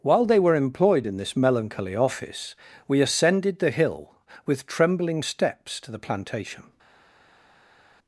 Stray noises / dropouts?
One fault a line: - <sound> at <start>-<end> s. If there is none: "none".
none